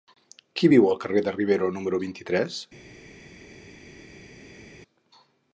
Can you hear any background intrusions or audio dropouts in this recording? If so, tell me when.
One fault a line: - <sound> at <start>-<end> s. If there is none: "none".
none